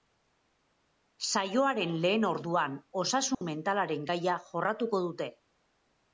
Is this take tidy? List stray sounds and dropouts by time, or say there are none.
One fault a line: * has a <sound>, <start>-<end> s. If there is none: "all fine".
* has a dropout, 3.3-3.4 s